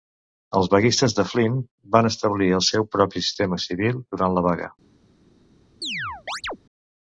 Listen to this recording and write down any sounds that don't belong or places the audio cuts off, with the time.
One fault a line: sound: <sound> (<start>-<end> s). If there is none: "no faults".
sound: chirp (5.8-6.6 s)